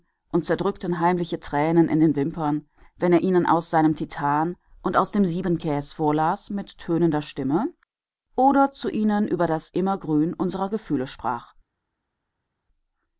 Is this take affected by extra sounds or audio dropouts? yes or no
no